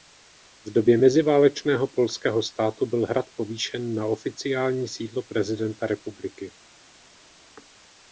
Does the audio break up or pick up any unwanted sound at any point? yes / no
no